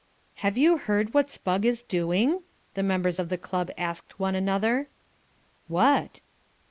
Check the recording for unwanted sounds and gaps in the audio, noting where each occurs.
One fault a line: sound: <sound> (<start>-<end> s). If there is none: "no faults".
no faults